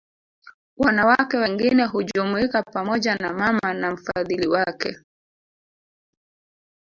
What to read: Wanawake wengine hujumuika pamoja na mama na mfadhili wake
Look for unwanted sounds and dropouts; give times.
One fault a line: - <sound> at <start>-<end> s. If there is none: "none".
none